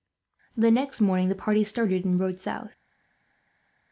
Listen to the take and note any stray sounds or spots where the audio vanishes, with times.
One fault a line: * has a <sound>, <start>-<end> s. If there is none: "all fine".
all fine